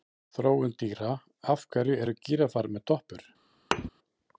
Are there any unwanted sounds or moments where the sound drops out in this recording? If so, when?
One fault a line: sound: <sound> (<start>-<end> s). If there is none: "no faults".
sound: thud (3.7-3.9 s)